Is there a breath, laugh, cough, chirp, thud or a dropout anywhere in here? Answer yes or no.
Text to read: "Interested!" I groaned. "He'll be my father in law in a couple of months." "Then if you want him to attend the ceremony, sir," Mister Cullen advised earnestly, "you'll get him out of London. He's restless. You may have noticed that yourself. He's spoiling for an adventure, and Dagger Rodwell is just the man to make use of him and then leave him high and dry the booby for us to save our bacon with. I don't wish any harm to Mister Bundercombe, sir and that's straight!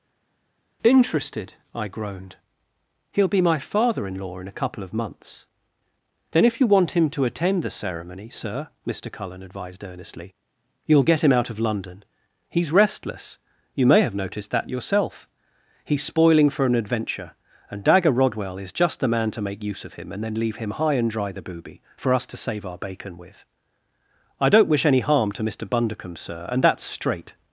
no